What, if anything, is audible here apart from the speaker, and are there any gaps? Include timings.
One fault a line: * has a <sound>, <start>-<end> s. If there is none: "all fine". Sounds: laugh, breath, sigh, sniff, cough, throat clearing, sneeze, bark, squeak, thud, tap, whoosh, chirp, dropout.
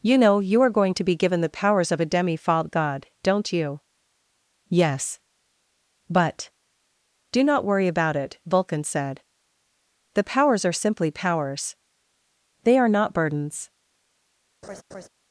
* has a laugh, 14.6-15.1 s